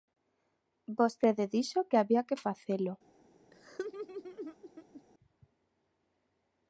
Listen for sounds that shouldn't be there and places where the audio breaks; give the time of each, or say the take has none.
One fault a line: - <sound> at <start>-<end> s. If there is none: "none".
- laugh at 3.5-5.0 s